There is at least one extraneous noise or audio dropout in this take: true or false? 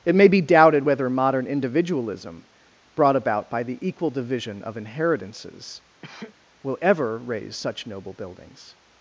true